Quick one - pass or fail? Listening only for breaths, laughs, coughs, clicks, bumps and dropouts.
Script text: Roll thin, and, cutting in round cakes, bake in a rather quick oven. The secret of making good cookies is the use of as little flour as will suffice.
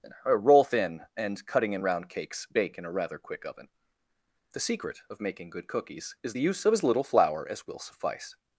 pass